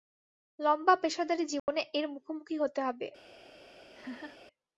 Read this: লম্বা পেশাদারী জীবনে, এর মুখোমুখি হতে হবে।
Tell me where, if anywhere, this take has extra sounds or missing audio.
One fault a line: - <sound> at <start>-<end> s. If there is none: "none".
- dropout at 1.6-1.7 s
- laugh at 3.9-4.4 s